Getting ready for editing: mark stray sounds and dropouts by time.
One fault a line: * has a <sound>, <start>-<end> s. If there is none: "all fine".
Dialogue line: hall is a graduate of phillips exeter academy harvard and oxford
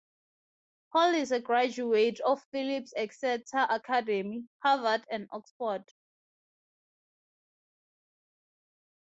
all fine